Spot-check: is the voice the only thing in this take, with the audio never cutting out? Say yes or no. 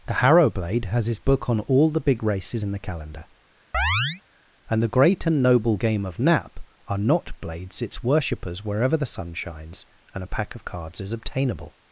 no